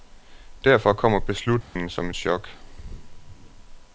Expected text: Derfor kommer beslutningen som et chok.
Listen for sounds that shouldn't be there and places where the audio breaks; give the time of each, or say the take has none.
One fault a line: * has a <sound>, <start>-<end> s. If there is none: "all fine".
* has a dropout, 1.6-1.8 s